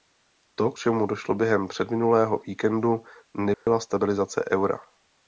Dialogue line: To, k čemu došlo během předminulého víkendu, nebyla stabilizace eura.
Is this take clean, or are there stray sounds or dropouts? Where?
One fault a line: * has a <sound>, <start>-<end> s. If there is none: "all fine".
* has a dropout, 3.5-3.7 s